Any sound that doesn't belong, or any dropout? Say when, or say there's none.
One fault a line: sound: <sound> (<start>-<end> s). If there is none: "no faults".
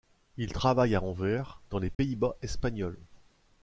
sound: dropout (1.9-2.0 s)